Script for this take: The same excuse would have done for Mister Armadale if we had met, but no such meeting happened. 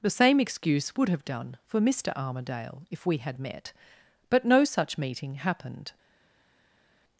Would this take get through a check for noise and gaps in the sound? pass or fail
pass